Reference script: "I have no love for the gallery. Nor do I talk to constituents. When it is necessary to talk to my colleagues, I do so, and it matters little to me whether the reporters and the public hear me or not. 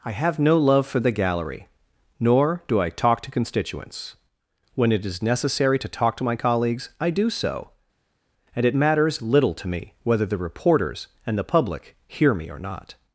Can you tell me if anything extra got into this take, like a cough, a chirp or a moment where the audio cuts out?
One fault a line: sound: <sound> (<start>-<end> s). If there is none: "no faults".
no faults